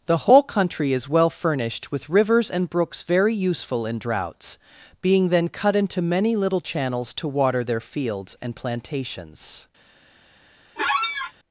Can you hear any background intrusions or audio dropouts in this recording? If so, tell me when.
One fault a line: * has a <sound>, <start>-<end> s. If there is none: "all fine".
* has a squeak, 10.8-11.3 s